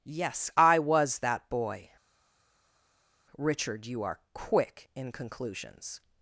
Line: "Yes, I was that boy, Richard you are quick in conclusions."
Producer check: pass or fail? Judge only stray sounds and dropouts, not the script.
pass